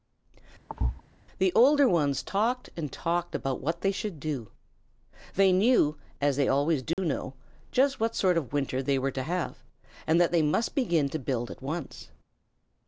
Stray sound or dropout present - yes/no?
yes